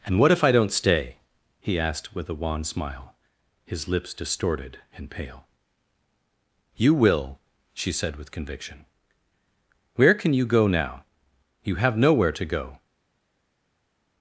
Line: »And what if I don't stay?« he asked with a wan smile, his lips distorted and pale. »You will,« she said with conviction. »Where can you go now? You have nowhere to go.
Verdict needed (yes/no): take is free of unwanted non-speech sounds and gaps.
yes